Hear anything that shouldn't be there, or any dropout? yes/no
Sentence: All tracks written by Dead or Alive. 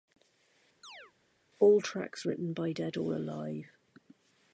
yes